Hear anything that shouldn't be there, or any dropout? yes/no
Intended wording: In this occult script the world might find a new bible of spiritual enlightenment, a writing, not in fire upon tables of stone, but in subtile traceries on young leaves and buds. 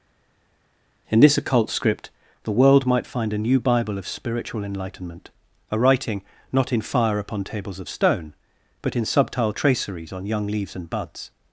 no